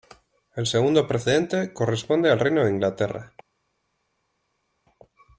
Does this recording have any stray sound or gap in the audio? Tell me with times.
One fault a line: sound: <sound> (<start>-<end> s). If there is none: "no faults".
no faults